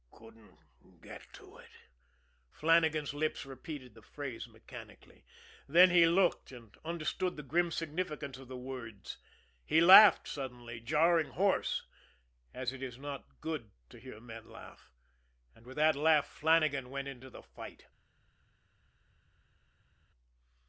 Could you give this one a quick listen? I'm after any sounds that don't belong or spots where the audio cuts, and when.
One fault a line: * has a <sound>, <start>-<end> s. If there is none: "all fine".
all fine